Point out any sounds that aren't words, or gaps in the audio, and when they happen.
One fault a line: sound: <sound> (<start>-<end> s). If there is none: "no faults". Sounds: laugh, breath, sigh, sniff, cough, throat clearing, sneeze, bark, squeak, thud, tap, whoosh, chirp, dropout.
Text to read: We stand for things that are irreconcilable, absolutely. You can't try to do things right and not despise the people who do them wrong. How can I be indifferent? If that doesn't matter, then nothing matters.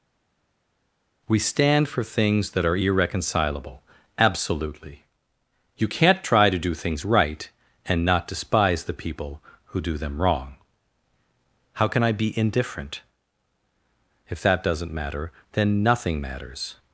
no faults